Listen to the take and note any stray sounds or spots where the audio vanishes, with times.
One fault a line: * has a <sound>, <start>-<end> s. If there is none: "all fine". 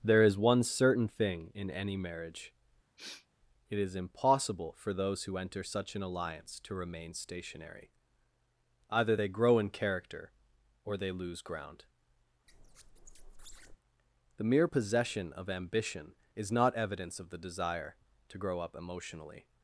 * has a sniff, 3.0-3.3 s
* has a squeak, 12.5-13.8 s